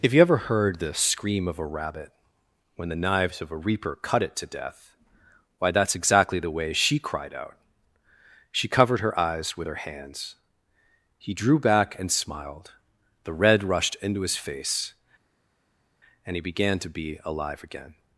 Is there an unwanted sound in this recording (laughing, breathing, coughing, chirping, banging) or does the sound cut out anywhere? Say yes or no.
no